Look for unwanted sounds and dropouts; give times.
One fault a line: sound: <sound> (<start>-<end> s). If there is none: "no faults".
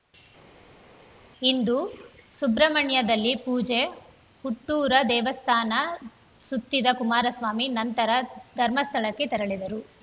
no faults